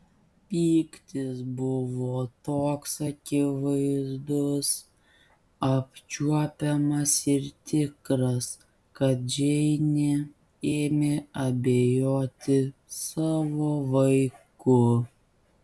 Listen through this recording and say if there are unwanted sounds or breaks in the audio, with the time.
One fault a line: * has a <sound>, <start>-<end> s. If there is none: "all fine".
all fine